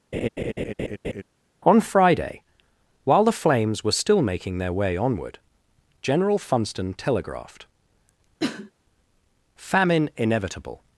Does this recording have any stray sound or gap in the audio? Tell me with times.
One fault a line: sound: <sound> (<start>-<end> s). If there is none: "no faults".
sound: laugh (0.1-1.2 s)
sound: cough (8.4-8.7 s)